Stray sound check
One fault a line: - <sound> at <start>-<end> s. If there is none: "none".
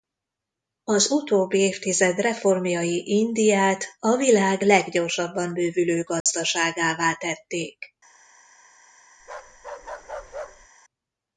- dropout at 6.2-6.3 s
- bark at 9.2-10.7 s